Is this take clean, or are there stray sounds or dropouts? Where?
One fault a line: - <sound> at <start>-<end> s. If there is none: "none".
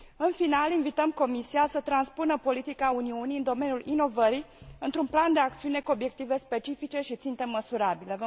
none